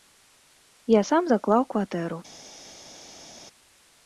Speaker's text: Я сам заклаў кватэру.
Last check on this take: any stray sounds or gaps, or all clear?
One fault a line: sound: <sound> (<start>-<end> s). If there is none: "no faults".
no faults